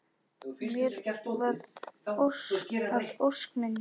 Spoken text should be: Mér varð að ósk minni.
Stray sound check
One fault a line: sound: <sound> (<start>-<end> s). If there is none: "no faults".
no faults